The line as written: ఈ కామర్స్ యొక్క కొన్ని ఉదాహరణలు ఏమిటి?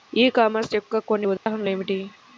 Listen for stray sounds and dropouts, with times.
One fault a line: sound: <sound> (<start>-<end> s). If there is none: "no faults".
sound: dropout (1.4-1.5 s)